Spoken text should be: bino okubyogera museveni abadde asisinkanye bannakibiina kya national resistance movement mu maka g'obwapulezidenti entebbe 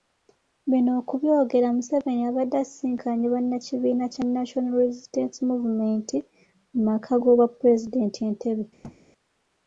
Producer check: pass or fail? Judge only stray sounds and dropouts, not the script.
fail